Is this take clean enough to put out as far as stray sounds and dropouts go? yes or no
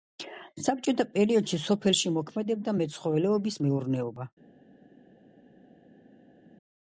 yes